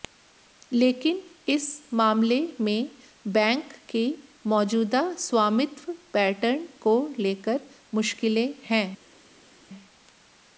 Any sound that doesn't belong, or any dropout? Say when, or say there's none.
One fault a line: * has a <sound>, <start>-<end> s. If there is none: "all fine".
all fine